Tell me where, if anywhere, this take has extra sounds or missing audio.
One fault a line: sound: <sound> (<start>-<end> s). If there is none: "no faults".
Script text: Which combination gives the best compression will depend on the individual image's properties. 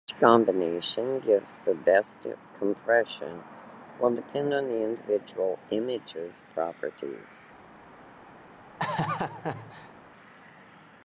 sound: laugh (8.8-9.9 s)